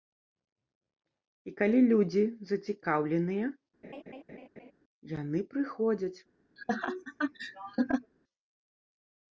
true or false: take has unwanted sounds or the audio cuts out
true